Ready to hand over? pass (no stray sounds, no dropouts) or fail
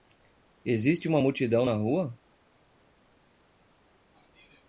pass